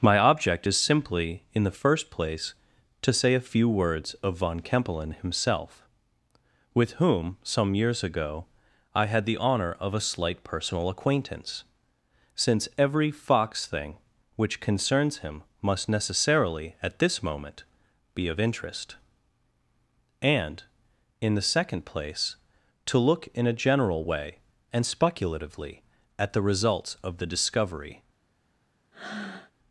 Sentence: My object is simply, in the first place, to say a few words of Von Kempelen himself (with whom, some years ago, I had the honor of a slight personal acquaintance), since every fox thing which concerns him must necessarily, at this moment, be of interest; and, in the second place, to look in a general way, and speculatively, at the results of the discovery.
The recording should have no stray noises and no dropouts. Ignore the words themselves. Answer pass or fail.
fail